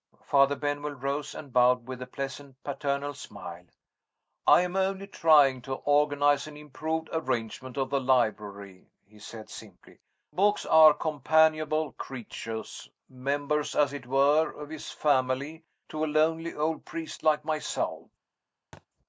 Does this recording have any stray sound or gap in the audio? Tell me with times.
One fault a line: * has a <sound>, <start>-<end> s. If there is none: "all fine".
* has a thud, 18.7-18.9 s